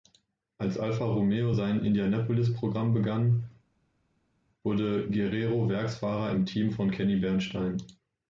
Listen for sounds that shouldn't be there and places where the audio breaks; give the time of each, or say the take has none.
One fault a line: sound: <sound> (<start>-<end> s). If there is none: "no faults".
no faults